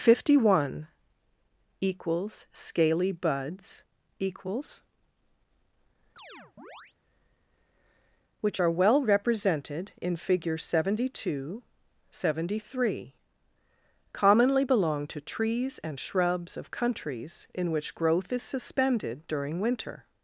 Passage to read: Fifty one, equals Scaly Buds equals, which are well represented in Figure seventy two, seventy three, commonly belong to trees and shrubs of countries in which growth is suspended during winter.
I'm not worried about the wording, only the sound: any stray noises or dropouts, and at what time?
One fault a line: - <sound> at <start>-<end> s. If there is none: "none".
- chirp at 6.2-6.9 s